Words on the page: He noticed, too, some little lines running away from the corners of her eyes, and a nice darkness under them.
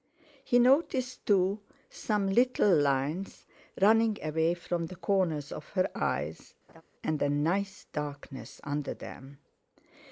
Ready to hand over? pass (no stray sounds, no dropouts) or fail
fail